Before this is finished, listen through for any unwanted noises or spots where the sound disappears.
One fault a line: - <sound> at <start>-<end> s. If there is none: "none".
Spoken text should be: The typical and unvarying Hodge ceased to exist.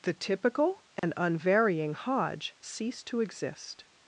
- dropout at 1.0-1.0 s